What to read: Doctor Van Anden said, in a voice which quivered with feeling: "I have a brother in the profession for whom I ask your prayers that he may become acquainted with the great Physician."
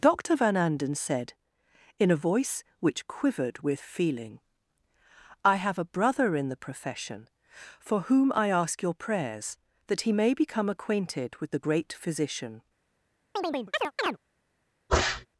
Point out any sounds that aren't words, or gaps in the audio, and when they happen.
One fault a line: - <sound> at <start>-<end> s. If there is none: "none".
- chirp at 13.4-14.2 s
- sneeze at 14.9-15.3 s